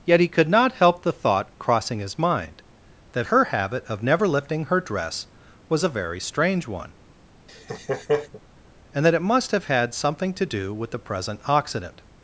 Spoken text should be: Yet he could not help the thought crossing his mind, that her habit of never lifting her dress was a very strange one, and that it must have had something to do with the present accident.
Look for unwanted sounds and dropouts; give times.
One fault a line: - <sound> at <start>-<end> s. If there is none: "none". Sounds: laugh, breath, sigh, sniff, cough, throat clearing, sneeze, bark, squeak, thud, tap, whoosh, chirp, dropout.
- laugh at 7.5-8.4 s